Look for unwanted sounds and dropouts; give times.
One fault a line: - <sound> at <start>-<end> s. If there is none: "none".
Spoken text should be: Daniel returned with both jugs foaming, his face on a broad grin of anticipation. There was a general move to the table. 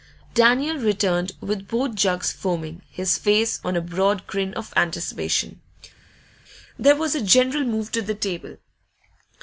none